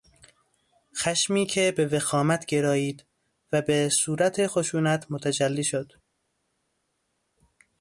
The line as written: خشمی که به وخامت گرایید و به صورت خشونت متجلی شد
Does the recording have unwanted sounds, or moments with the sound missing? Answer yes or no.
no